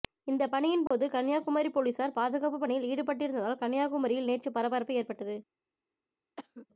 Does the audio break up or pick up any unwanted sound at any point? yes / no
yes